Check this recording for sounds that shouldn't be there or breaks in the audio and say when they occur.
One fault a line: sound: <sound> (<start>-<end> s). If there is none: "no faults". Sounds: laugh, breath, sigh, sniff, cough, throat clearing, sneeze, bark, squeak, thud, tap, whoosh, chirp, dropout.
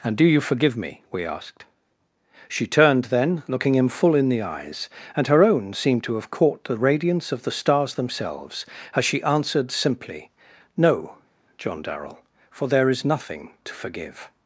no faults